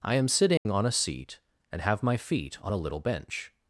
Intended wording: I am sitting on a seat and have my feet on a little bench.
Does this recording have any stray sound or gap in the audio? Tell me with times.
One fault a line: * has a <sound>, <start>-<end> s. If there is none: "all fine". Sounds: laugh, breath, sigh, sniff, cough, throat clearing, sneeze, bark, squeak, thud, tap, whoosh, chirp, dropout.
* has a dropout, 0.6-0.7 s